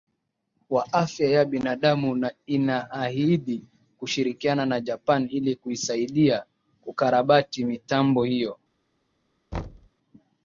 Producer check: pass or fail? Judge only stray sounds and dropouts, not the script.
fail